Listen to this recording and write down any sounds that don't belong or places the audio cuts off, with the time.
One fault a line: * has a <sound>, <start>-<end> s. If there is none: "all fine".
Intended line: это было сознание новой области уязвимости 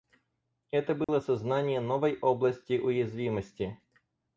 * has a dropout, 1.0-1.1 s